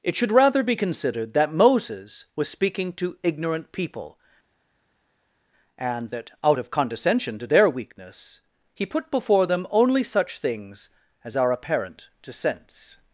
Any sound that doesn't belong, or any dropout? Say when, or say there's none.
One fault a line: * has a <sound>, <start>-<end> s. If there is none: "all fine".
all fine